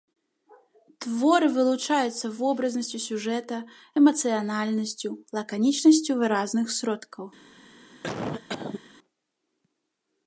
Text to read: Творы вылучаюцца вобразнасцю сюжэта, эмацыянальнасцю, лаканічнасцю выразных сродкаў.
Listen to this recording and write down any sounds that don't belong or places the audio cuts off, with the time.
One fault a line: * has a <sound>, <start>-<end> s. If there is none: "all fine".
* has a cough, 8.0-8.8 s